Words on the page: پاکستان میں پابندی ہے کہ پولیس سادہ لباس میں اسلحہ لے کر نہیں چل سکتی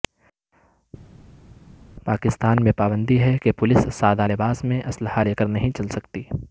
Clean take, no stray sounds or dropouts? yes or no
yes